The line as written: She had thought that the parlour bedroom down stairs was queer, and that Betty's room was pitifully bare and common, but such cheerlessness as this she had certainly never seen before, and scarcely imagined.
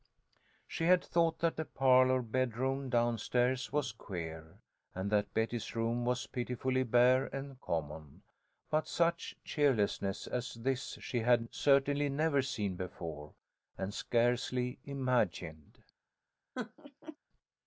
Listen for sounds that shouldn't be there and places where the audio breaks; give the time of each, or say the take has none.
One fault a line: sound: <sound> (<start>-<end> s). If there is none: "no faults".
sound: laugh (16.6-17.2 s)